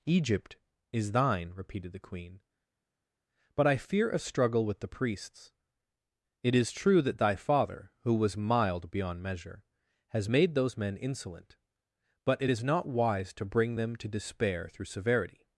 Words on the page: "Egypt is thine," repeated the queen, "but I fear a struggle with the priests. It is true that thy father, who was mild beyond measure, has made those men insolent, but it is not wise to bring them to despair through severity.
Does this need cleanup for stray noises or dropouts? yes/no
no